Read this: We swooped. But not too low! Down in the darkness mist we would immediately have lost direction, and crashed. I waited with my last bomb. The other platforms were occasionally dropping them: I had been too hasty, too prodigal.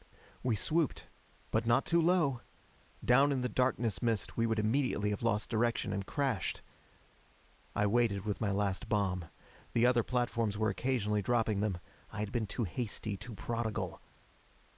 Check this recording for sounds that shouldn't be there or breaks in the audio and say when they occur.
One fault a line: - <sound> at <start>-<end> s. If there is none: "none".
none